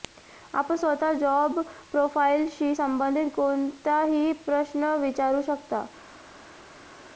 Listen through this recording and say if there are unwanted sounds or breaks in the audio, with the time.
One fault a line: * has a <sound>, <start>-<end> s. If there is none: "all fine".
all fine